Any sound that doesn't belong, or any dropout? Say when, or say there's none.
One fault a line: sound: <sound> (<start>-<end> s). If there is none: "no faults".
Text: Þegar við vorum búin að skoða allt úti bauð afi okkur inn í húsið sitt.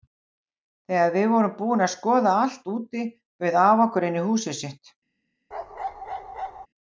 sound: bark (5.5-6.7 s)